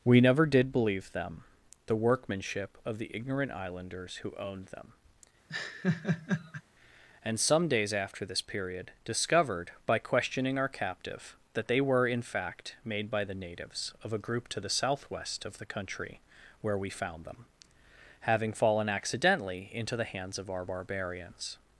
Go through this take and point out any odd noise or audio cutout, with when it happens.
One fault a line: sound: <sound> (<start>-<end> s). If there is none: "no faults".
sound: laugh (5.5-6.6 s)